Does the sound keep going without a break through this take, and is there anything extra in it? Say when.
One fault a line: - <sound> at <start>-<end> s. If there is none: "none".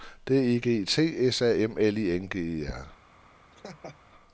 - laugh at 3.5-4.0 s